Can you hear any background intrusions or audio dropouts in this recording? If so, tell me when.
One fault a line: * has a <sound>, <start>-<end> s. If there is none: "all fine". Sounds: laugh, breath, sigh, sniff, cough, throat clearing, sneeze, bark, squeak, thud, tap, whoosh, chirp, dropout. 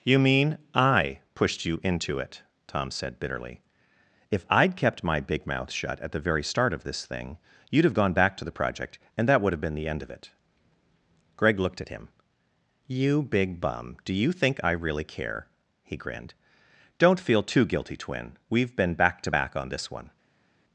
all fine